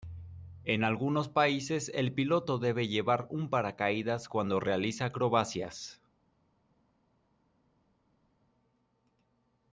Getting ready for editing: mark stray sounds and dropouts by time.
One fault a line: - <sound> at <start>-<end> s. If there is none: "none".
none